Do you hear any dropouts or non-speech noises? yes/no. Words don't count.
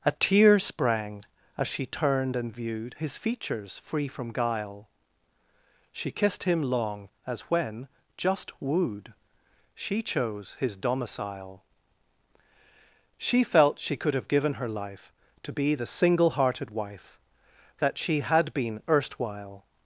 no